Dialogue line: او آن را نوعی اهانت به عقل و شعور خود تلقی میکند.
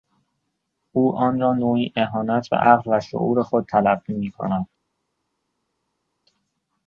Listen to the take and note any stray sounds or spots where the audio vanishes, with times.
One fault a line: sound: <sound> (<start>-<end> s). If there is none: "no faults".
no faults